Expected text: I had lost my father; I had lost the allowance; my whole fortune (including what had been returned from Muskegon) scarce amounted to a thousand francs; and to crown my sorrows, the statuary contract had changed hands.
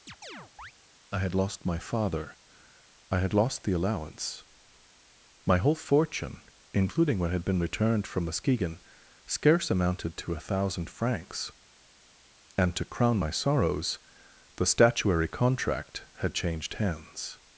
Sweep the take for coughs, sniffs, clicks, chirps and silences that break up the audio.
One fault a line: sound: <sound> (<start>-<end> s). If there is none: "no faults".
sound: chirp (0.1-0.7 s)